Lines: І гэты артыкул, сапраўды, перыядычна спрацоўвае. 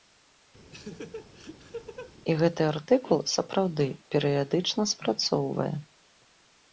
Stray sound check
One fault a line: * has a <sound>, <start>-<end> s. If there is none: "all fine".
* has a laugh, 0.7-2.1 s